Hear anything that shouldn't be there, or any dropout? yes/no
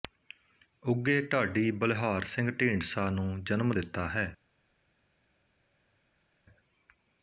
no